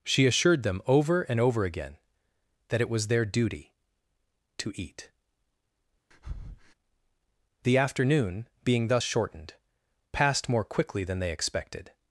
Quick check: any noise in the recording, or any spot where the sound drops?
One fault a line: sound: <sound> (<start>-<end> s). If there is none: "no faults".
sound: breath (6.1-6.7 s)